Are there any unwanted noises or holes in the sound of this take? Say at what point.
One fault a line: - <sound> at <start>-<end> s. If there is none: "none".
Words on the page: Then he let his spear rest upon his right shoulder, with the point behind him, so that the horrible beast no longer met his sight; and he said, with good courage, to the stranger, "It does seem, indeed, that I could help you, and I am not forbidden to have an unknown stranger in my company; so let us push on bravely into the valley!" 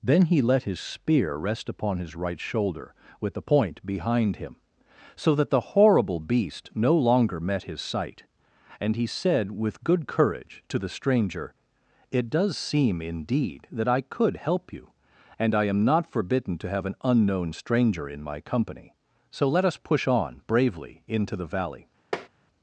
- tap at 22.1-22.3 s